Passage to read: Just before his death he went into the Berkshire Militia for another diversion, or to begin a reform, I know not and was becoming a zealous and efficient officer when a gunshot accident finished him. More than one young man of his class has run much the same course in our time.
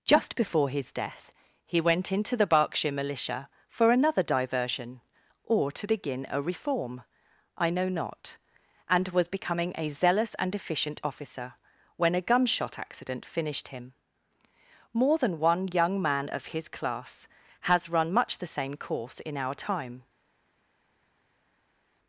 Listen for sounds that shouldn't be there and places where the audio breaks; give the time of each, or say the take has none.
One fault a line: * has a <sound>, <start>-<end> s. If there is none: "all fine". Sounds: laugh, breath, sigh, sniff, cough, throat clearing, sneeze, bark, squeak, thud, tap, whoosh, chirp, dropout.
all fine